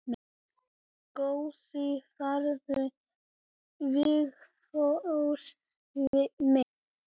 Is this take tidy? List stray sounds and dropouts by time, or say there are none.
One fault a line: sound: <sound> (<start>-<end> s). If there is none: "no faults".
no faults